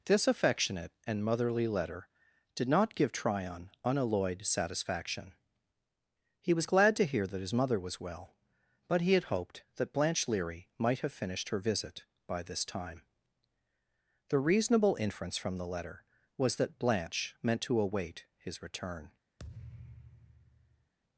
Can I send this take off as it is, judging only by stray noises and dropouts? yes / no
no